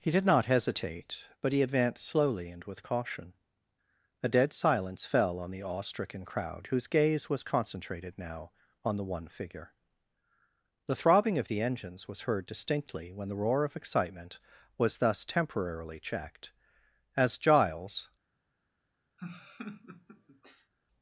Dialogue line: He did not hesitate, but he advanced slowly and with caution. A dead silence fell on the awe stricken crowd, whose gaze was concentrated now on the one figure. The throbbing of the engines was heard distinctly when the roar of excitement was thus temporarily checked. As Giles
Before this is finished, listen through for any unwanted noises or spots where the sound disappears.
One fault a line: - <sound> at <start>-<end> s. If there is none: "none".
- laugh at 19.2-20.7 s